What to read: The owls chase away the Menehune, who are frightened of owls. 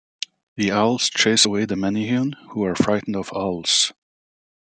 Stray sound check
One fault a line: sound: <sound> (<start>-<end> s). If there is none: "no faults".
no faults